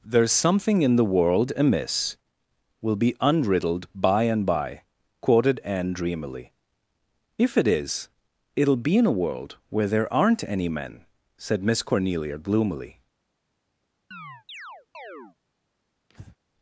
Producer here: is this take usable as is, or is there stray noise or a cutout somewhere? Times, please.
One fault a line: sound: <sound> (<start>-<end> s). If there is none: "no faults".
sound: chirp (14.1-15.4 s)
sound: breath (16.1-16.4 s)